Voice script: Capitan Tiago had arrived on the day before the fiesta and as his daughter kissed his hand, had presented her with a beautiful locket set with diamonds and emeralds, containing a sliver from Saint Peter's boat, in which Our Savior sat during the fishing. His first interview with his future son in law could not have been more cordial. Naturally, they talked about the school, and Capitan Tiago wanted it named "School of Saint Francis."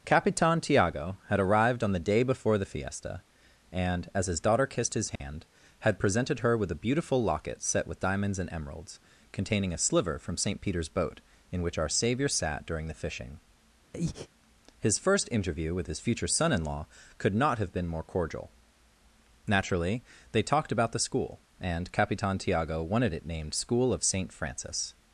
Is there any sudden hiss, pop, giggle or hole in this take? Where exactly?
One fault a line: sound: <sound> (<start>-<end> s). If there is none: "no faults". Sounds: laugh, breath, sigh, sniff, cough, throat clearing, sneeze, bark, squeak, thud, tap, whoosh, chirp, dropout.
sound: dropout (5.2-5.2 s)
sound: breath (13.9-14.3 s)